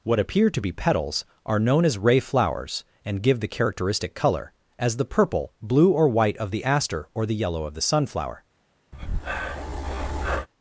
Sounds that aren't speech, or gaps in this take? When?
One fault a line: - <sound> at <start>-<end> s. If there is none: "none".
- breath at 8.9-10.5 s